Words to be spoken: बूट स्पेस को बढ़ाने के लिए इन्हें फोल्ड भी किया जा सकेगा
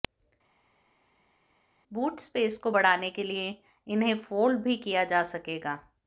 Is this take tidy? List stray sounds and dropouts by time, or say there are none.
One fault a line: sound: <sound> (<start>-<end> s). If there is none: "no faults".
no faults